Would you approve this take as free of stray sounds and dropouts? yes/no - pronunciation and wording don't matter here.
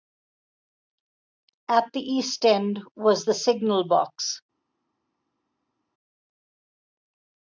yes